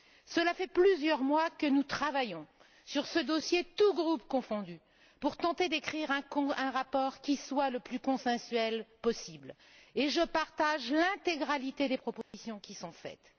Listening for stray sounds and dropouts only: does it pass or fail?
fail